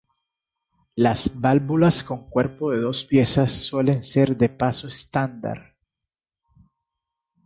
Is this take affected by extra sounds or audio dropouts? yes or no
no